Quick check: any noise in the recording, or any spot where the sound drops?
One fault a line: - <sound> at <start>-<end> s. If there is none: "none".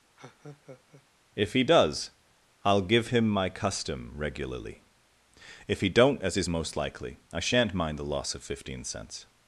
- laugh at 0.2-1.1 s